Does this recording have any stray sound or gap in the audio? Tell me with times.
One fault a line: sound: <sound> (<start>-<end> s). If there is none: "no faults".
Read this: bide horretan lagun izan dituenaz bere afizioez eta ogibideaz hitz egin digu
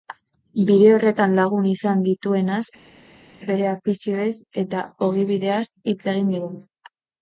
no faults